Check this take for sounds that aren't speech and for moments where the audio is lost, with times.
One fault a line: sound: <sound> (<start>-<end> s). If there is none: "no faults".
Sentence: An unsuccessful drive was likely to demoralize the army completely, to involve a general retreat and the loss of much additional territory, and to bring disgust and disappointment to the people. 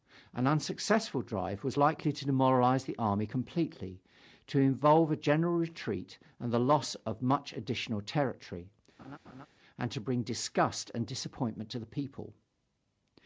sound: laugh (9.0-9.5 s)